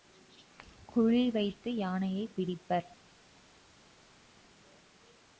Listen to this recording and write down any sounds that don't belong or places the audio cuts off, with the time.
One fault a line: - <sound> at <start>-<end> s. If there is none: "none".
none